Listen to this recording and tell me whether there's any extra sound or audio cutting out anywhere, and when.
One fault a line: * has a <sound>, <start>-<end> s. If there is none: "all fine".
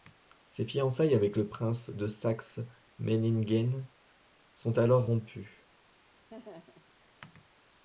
* has a laugh, 6.3-6.9 s